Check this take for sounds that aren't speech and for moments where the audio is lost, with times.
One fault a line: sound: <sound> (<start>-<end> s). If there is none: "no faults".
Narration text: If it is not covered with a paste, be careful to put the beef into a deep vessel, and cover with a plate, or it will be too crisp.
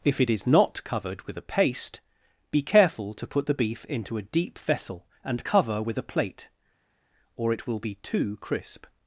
no faults